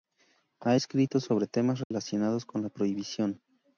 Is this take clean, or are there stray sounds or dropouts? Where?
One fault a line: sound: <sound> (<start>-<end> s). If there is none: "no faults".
sound: dropout (1.8-1.9 s)